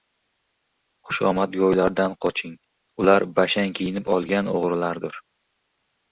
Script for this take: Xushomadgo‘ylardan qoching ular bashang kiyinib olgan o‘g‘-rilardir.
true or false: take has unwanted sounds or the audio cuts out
false